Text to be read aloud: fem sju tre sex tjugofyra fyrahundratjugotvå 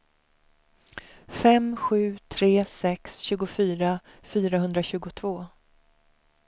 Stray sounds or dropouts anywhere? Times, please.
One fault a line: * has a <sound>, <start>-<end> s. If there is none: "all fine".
all fine